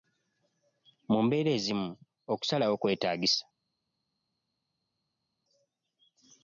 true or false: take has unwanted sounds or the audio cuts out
false